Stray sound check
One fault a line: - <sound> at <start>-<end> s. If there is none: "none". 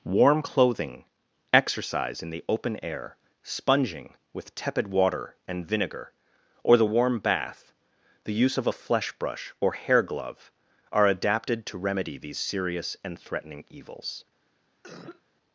- cough at 14.8-15.2 s